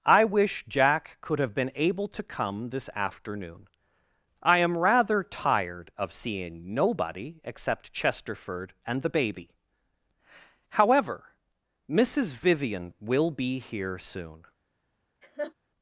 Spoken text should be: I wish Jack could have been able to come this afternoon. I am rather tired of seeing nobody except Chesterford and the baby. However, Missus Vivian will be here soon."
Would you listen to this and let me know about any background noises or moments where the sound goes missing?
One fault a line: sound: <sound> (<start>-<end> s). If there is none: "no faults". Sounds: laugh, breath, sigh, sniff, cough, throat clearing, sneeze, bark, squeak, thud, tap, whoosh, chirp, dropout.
sound: laugh (15.2-15.5 s)